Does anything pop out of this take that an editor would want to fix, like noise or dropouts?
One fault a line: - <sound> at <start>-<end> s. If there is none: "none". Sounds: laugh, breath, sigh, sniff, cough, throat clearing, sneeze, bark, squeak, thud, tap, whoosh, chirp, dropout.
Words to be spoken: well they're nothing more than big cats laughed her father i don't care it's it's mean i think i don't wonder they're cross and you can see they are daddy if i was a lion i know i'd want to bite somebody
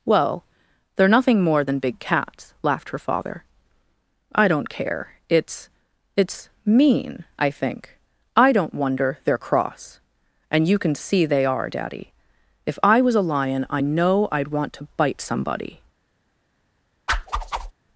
- whoosh at 17.1-17.7 s